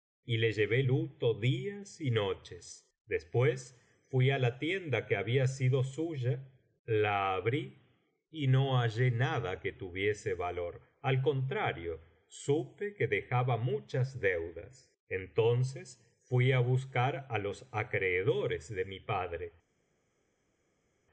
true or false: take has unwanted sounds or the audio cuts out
false